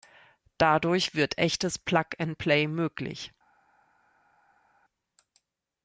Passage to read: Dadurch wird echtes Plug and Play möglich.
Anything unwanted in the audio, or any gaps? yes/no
no